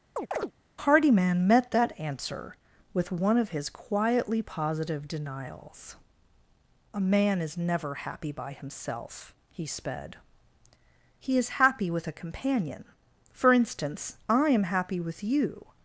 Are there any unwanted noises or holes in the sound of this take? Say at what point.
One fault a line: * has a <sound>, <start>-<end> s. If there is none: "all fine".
* has a chirp, 0.2-0.5 s